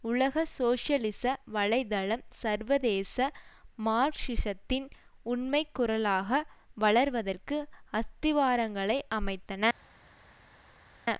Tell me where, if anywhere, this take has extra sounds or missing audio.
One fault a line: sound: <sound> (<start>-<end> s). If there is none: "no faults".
no faults